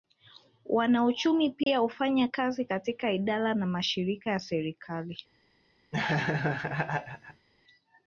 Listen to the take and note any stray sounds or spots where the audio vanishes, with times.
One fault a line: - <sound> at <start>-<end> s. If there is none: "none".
- dropout at 1.6-1.7 s
- laugh at 5.9-7.5 s